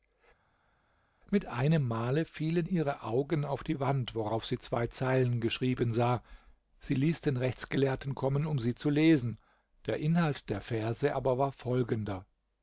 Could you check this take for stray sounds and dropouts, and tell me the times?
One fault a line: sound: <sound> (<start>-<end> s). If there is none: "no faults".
no faults